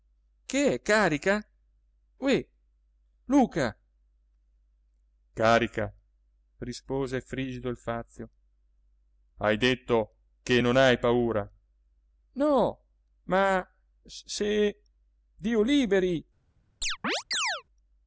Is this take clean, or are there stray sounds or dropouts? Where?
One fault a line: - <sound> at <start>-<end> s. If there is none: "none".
- chirp at 16.8-17.6 s